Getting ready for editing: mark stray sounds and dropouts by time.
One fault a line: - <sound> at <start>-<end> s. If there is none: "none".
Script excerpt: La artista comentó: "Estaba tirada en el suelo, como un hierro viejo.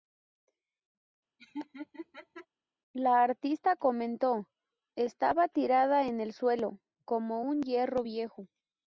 - laugh at 1.4-2.5 s